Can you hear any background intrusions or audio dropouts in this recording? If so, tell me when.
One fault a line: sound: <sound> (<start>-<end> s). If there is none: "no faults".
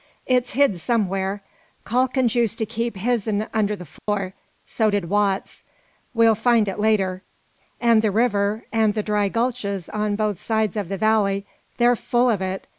sound: dropout (4.0-4.1 s)